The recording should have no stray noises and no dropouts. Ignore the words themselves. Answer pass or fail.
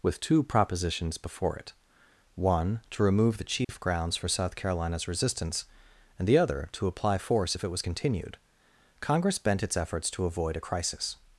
fail